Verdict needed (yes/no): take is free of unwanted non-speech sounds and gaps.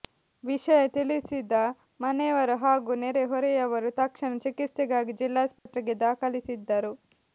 no